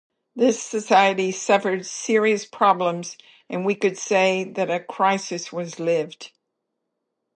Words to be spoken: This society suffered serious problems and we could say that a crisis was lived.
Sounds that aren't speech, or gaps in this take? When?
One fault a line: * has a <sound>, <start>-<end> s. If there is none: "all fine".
all fine